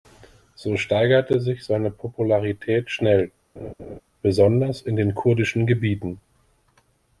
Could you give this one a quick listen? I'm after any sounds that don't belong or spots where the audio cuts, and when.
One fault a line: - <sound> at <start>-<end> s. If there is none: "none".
- laugh at 3.6-4.0 s